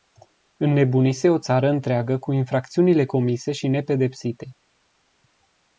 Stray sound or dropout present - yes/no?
no